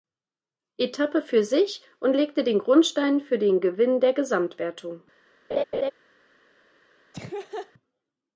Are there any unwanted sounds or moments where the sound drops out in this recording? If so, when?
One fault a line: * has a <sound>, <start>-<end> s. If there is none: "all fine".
* has a laugh, 5.5-5.9 s
* has a laugh, 7.1-7.7 s